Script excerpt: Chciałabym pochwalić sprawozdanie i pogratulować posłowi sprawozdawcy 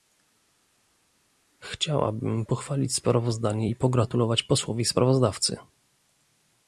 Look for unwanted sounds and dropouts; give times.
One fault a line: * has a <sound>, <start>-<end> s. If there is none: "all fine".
all fine